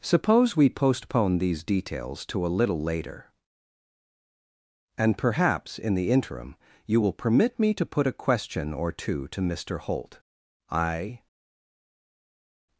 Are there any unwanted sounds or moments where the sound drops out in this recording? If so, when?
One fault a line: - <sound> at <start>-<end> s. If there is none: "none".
none